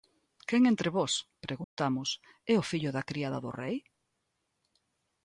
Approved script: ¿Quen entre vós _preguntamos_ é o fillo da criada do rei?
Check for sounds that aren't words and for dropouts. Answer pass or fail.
fail